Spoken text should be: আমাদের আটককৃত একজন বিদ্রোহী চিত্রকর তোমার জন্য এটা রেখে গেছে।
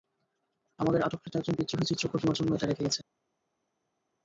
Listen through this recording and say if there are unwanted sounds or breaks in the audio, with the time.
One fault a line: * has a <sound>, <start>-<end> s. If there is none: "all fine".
all fine